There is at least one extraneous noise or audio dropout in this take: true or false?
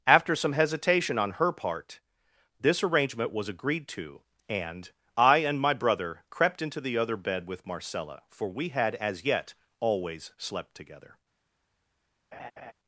true